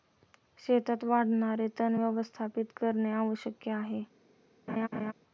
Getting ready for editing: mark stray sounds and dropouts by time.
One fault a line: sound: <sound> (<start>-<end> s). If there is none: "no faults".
sound: laugh (4.7-5.1 s)